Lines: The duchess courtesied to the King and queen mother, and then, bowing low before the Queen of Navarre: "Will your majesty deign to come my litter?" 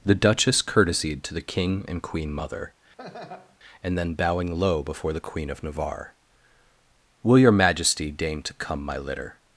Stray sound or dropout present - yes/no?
yes